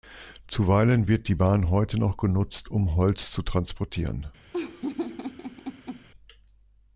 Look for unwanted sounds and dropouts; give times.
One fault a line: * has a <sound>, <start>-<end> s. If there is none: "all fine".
* has a laugh, 4.5-6.1 s